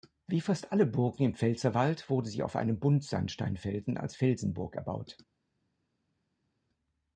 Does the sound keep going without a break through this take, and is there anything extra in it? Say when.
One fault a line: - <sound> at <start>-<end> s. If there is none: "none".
none